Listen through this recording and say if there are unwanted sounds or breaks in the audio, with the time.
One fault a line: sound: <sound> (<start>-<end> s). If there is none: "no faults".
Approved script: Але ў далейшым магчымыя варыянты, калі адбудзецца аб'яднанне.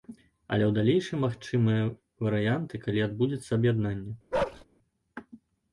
sound: bark (4.3-4.6 s)